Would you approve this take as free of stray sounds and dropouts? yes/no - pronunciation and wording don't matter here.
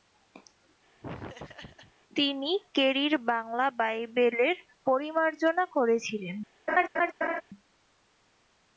no